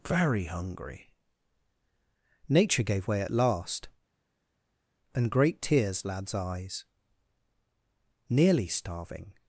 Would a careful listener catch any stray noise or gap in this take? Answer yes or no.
no